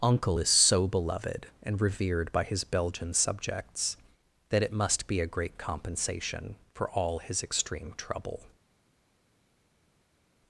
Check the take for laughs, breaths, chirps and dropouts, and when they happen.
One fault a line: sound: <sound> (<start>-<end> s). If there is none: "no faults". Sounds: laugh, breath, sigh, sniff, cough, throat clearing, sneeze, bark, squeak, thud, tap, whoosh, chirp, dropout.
no faults